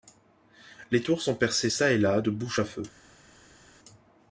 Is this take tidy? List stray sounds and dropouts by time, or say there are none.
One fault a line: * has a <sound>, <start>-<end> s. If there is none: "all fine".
all fine